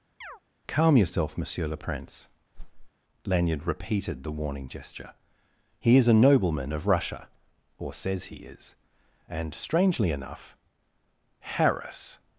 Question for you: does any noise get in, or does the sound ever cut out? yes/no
yes